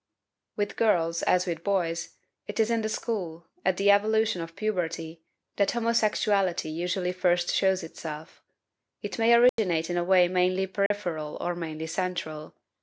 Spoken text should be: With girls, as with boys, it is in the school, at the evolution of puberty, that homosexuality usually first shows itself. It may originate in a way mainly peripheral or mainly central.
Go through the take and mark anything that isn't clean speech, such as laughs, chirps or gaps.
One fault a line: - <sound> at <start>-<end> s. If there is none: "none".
- dropout at 9.5-9.6 s
- dropout at 10.9-10.9 s